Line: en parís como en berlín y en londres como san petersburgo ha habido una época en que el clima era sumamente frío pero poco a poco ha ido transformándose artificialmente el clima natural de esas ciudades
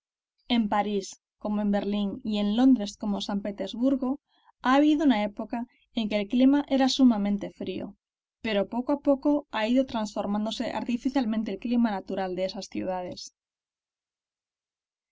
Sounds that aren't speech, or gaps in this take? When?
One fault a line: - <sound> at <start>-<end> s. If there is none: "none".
none